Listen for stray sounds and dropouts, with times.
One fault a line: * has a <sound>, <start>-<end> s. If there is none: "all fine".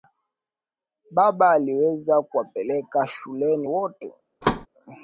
* has a thud, 4.4-4.7 s